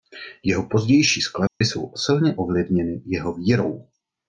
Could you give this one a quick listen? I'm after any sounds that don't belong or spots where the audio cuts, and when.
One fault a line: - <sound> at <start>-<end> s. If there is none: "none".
- dropout at 1.5-1.6 s